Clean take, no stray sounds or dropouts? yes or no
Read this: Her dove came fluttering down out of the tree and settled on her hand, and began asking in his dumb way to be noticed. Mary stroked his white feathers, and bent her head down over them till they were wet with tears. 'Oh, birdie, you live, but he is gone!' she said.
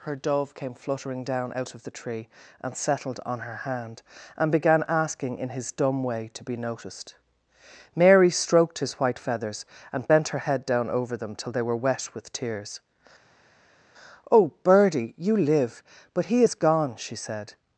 yes